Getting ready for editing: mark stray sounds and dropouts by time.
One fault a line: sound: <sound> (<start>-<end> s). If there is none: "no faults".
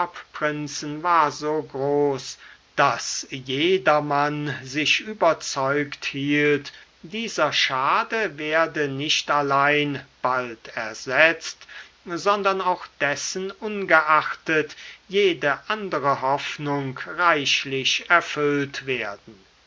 no faults